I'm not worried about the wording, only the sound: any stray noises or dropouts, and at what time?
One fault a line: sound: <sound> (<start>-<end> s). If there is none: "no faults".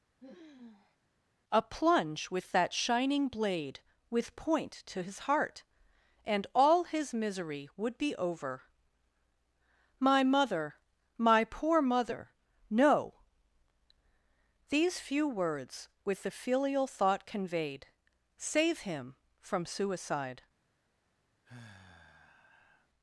sound: sigh (0.2-1.0 s)
sound: sigh (21.4-22.9 s)